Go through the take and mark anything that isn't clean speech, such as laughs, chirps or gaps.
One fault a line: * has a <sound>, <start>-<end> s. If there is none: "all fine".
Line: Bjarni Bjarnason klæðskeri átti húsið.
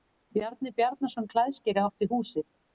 all fine